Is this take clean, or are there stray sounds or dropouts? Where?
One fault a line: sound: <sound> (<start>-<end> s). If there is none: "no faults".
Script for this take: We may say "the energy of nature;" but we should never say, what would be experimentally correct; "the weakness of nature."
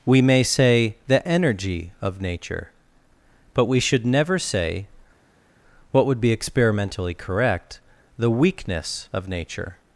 no faults